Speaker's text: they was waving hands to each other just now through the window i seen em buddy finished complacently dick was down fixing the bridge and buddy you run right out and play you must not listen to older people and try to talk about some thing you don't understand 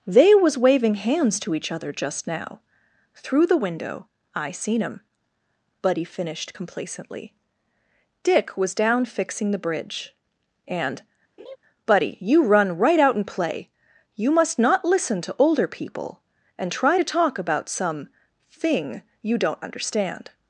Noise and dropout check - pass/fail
fail